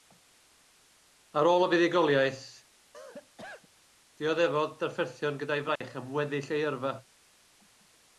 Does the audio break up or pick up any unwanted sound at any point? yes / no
yes